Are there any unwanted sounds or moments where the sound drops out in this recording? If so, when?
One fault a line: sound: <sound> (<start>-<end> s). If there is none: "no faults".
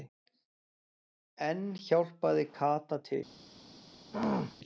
sound: throat clearing (4.1-4.6 s)